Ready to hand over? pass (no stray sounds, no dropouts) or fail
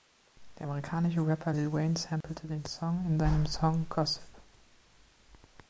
fail